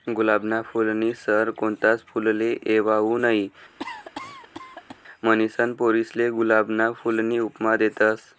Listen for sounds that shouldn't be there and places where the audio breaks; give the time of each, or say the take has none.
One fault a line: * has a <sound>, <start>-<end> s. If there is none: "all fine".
* has a cough, 3.8-5.0 s